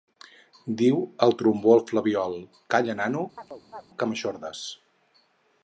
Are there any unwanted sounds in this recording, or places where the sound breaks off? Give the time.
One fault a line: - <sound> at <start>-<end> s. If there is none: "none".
- chirp at 3.4-3.9 s